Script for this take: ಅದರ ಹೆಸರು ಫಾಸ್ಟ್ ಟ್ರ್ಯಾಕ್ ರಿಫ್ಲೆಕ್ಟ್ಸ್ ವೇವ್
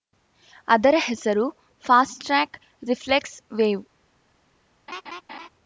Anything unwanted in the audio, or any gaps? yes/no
yes